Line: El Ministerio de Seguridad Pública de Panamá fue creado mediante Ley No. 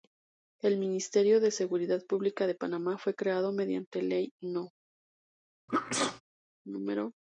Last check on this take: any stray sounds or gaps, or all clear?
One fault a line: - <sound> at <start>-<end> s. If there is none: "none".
- sneeze at 5.7-6.2 s